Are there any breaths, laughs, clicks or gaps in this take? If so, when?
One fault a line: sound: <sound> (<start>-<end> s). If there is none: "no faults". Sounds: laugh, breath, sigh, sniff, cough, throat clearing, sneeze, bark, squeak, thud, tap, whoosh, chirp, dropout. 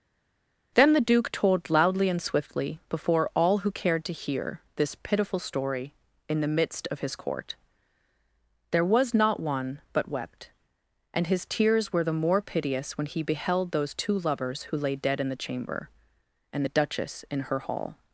no faults